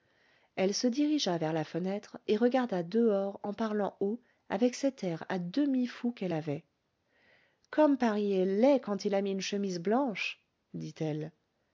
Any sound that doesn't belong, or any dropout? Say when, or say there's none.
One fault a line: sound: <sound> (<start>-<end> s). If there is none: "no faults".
no faults